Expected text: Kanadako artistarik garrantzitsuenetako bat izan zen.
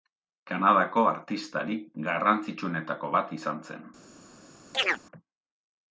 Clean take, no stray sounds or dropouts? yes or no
no